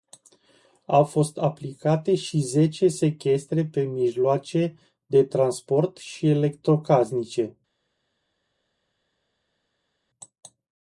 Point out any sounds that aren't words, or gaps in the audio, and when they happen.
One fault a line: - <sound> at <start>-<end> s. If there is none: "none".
none